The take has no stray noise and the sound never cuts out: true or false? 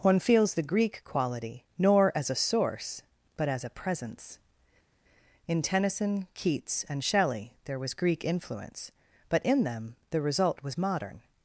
true